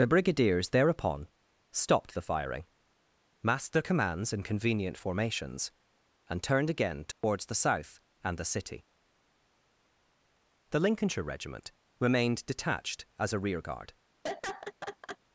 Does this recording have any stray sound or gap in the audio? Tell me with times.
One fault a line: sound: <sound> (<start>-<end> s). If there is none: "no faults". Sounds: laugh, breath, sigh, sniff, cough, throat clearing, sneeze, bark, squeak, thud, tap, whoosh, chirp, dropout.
sound: dropout (7.1-7.2 s)
sound: laugh (14.2-15.2 s)